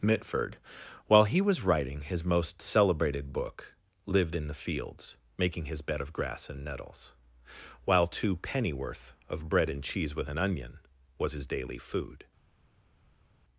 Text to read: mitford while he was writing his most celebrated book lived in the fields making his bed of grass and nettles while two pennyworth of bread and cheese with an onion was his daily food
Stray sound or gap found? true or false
false